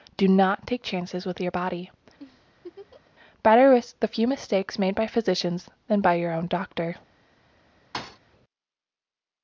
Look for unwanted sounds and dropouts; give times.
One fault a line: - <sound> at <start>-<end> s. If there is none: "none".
- laugh at 2.2-3.1 s
- thud at 7.9-8.2 s